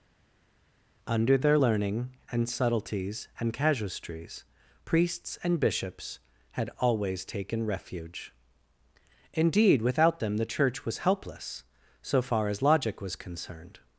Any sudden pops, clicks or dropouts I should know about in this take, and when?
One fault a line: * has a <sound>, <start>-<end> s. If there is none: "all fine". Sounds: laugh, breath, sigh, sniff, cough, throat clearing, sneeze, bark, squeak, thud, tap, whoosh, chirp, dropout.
all fine